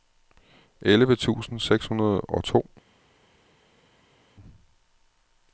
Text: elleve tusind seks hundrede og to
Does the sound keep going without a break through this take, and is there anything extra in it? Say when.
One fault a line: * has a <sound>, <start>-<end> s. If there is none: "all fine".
all fine